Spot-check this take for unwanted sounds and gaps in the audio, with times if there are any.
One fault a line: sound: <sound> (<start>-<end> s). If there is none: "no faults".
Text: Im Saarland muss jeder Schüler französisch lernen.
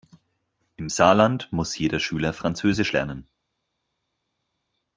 no faults